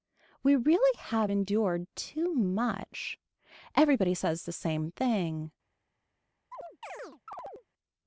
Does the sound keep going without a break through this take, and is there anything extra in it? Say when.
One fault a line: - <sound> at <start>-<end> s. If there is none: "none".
- chirp at 6.5-7.7 s